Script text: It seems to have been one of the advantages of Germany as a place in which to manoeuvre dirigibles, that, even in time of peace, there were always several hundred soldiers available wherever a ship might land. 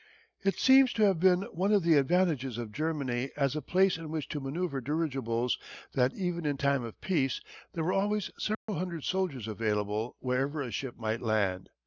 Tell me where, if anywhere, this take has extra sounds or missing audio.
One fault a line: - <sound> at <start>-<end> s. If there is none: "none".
- dropout at 8.5-8.7 s